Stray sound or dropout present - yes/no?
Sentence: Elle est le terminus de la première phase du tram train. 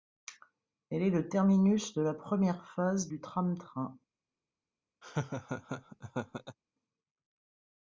yes